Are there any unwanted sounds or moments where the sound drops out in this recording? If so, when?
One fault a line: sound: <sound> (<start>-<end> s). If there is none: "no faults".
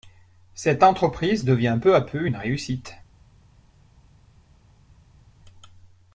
no faults